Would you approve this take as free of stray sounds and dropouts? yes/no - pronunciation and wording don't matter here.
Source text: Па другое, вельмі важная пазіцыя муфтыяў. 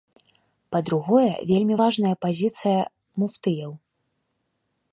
yes